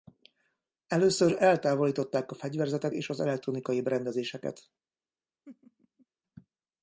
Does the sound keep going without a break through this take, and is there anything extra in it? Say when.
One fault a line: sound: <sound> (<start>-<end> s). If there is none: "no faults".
sound: laugh (5.5-6.1 s)